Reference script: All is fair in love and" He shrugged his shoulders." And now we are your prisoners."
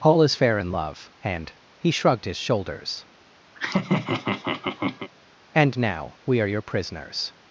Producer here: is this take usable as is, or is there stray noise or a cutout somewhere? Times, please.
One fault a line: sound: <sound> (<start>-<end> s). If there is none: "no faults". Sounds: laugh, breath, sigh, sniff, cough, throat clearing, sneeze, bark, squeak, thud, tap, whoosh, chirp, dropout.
sound: laugh (3.5-5.1 s)